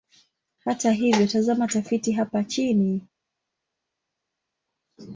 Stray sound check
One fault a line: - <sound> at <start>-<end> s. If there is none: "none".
none